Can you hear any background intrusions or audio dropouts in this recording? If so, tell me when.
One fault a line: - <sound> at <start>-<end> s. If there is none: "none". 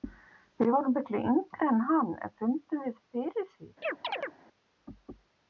- chirp at 3.8-4.3 s